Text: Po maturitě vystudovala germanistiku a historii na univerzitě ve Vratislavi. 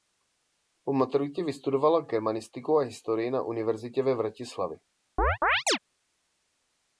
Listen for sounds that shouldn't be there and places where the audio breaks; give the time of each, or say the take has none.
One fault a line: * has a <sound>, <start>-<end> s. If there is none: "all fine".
* has a chirp, 5.2-5.8 s